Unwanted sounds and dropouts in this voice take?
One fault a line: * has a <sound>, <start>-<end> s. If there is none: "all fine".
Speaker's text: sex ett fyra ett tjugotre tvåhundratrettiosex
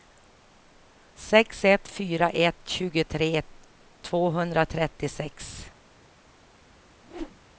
* has a whoosh, 7.0-7.4 s